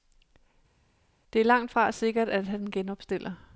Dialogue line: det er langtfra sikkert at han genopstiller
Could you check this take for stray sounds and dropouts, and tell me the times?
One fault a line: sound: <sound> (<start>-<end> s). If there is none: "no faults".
no faults